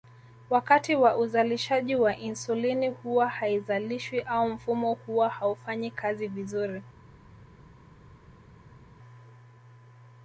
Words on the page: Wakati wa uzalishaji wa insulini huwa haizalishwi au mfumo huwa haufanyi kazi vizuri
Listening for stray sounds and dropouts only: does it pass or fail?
pass